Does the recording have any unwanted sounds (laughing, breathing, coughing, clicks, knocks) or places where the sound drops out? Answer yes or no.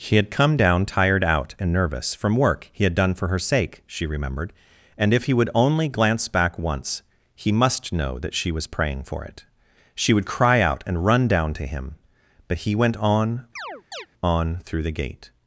yes